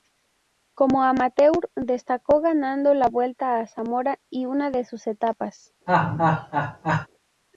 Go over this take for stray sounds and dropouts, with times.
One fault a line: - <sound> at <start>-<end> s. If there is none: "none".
- laugh at 5.9-7.1 s